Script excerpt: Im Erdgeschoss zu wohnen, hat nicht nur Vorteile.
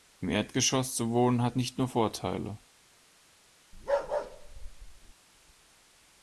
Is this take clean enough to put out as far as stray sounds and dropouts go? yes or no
no